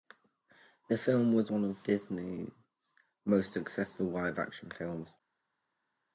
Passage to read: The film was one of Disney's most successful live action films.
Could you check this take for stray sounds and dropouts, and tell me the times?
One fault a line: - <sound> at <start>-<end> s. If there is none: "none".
none